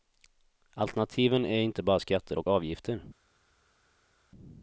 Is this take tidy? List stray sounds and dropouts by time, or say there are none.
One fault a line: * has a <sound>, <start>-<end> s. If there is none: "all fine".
all fine